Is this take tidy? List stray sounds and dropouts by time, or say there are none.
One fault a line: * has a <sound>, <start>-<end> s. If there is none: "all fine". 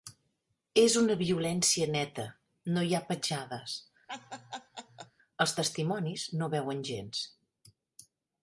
* has a laugh, 4.1-5.1 s